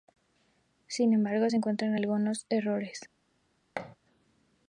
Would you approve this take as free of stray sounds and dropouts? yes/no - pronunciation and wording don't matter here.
no